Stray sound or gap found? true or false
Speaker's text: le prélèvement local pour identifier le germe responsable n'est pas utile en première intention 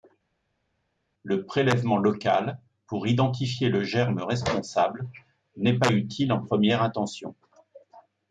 false